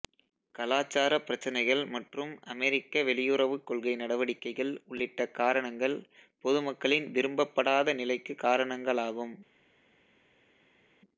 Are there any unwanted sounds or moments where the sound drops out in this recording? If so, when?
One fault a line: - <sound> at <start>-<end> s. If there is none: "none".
none